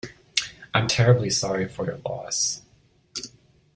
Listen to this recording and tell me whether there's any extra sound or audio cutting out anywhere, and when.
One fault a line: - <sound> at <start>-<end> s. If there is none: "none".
none